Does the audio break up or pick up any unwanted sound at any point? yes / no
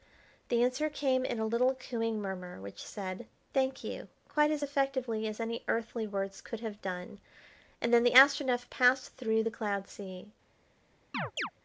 yes